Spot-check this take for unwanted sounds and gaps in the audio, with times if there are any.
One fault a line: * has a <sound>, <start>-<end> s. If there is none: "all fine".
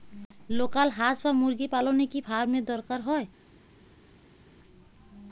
all fine